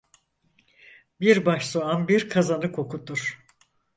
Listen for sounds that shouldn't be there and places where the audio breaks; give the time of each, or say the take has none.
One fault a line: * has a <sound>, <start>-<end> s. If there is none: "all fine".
all fine